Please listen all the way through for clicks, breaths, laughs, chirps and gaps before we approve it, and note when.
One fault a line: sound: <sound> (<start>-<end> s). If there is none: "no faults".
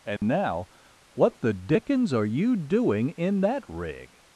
sound: dropout (0.2-0.2 s)